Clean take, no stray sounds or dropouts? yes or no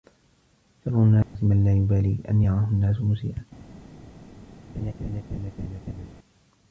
no